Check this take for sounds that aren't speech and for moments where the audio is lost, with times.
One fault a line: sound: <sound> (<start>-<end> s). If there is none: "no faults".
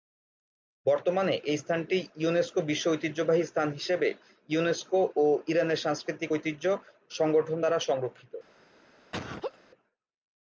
sound: laugh (9.1-9.6 s)